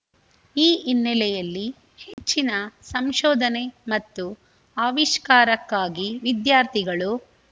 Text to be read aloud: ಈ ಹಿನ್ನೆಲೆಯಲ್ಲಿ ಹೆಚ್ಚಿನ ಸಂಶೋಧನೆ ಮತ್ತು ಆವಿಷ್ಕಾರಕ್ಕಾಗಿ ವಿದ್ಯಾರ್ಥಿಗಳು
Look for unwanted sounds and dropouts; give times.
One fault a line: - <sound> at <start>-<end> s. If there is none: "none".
- dropout at 2.1-2.2 s